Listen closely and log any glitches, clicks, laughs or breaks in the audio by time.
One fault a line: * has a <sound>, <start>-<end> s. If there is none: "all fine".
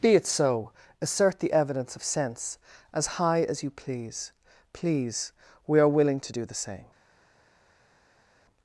all fine